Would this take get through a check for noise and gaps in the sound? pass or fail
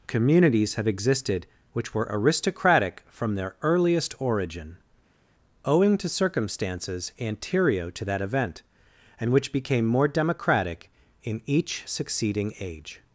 pass